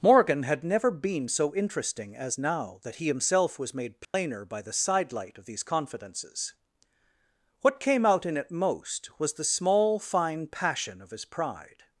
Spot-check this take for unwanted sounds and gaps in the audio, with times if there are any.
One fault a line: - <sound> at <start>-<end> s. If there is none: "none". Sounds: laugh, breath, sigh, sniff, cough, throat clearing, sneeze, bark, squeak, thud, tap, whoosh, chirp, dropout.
- dropout at 4.0-4.1 s